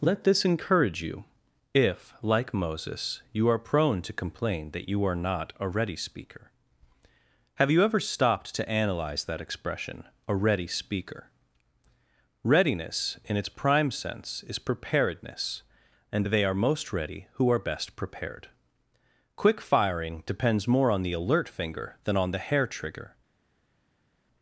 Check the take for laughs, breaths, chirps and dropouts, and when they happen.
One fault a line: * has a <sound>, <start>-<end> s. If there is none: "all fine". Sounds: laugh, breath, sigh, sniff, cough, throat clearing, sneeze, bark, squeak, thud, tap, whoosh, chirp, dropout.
all fine